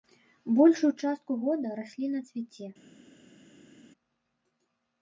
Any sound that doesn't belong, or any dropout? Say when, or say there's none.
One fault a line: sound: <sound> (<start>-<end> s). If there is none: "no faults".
no faults